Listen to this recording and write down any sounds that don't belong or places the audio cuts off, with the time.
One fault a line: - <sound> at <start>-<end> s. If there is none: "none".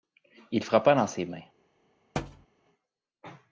- thud at 2.2-2.5 s